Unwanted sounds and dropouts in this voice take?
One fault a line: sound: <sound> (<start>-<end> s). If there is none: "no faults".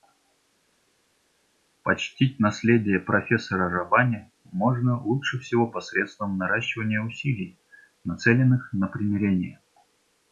no faults